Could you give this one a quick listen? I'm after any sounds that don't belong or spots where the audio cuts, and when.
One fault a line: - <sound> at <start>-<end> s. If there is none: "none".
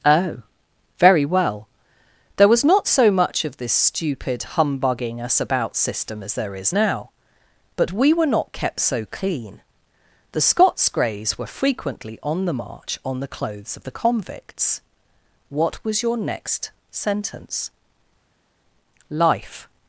none